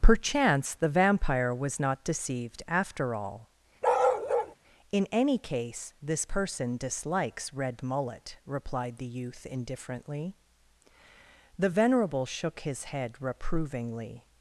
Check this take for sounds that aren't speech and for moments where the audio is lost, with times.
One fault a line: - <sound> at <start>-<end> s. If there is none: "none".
- bark at 3.8-4.6 s